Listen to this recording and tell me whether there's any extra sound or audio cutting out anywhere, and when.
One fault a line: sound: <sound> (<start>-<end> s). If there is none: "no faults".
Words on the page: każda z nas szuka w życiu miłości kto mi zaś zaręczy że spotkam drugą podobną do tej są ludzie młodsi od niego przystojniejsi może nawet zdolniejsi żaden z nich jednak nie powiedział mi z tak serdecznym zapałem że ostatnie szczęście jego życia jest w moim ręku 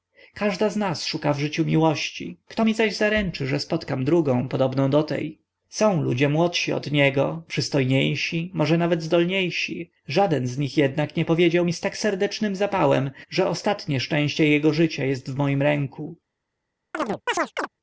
sound: chirp (16.9-17.7 s)